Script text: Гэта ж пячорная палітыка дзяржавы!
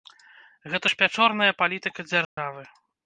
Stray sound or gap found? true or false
true